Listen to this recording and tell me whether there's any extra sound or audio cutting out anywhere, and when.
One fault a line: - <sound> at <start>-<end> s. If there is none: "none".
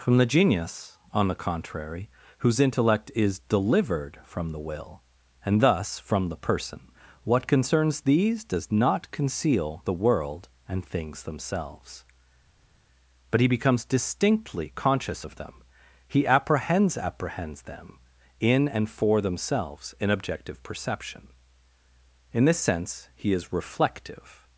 none